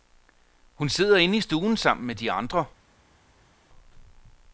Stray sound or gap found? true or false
false